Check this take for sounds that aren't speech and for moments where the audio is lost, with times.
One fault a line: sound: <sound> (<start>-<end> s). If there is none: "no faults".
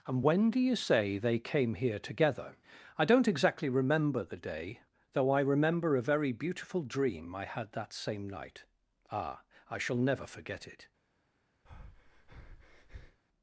sound: breath (11.7-13.2 s)